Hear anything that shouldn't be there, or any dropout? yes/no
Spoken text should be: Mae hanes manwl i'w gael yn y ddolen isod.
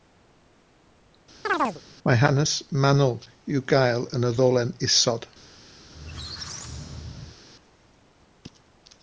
yes